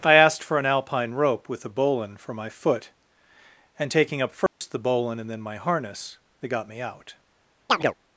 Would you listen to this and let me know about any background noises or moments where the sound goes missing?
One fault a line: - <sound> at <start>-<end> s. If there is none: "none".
- dropout at 4.5-4.6 s
- chirp at 7.7-7.9 s